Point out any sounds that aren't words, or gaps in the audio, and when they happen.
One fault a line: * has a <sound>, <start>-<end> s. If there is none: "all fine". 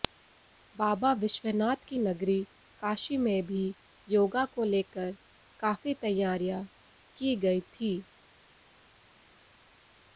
all fine